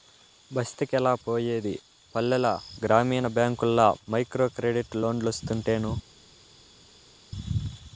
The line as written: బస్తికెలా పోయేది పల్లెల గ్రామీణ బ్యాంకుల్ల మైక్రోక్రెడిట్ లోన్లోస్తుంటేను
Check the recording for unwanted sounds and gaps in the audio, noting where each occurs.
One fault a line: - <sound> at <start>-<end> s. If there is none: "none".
none